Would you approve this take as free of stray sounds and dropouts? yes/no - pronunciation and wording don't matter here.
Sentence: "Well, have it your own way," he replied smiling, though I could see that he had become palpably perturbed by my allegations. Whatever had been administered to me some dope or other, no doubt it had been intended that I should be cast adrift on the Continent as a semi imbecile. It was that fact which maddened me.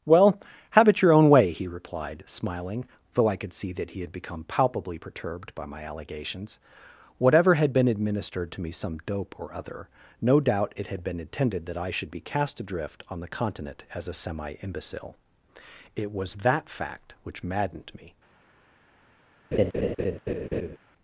no